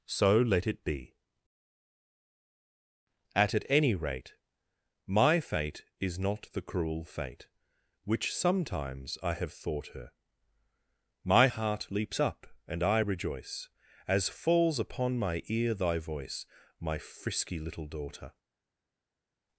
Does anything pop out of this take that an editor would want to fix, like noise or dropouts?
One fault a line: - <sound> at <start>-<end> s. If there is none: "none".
none